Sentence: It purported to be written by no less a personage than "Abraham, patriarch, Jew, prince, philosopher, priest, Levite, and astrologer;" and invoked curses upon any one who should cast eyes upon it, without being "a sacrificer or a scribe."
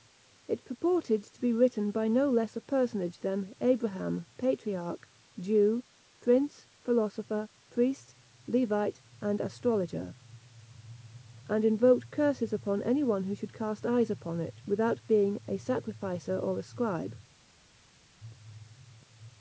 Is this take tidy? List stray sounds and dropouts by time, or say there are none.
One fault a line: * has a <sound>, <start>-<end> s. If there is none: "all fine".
all fine